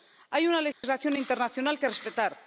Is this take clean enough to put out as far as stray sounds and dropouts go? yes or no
no